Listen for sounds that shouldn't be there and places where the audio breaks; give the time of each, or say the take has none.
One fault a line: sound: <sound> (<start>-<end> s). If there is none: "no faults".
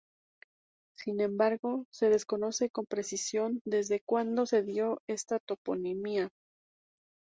no faults